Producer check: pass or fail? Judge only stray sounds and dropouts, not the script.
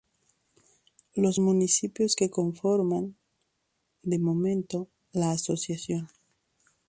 pass